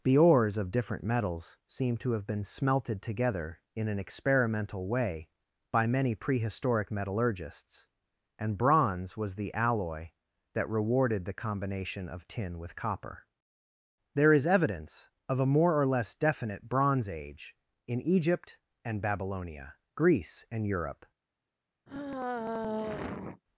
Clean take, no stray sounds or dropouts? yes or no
no